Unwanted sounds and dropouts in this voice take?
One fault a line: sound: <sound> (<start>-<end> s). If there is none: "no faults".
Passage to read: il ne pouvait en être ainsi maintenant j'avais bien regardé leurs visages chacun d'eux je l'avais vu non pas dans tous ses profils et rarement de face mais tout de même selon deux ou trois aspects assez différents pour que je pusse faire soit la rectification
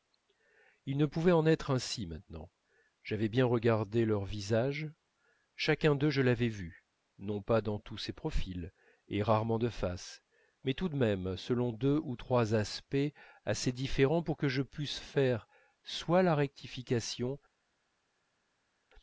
no faults